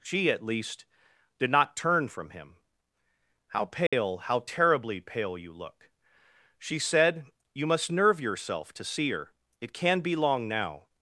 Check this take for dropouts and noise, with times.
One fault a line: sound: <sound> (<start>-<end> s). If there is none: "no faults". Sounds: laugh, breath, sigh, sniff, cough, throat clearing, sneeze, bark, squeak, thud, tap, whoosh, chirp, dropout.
sound: dropout (3.9-3.9 s)